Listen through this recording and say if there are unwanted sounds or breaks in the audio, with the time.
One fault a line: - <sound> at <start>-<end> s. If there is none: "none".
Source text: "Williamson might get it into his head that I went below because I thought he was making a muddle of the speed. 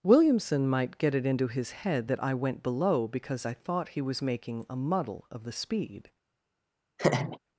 - laugh at 7.0-7.4 s